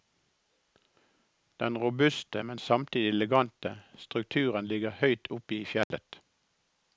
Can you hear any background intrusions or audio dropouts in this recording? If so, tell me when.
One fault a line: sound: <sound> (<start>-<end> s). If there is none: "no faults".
sound: dropout (5.8-5.9 s)